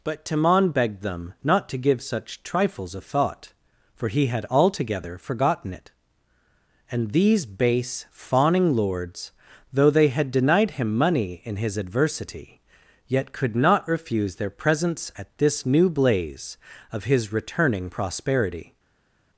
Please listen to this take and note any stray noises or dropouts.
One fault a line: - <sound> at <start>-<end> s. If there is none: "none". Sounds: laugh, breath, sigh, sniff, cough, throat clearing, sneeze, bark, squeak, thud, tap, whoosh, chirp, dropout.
none